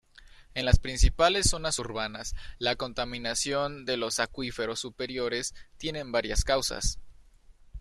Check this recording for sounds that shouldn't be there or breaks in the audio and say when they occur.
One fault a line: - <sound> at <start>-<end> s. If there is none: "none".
none